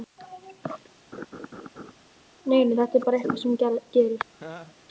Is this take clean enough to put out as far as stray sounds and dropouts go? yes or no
no